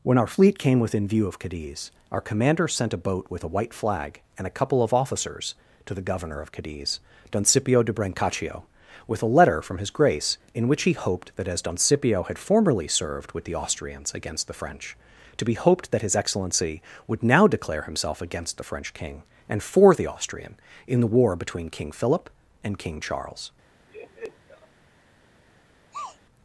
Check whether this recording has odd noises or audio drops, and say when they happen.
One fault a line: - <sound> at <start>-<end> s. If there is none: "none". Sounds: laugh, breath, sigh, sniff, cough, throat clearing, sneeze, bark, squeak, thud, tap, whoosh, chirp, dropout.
- laugh at 23.9-24.7 s
- sneeze at 25.9-26.2 s